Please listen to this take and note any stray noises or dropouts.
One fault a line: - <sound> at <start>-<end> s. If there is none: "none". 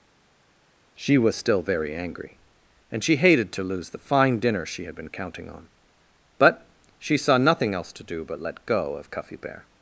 none